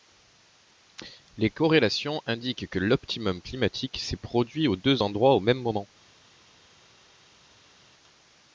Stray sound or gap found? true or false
false